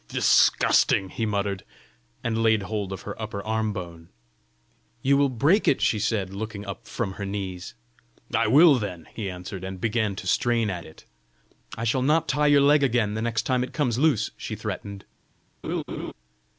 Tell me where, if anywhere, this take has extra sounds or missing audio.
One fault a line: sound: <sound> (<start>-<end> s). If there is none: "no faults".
sound: laugh (15.6-16.1 s)